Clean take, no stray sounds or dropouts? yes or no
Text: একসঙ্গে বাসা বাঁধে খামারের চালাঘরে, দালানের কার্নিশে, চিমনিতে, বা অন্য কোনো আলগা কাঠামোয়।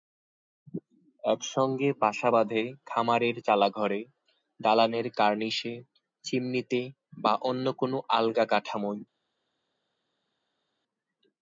yes